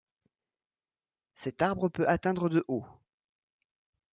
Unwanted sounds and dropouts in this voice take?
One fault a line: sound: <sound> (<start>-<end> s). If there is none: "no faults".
no faults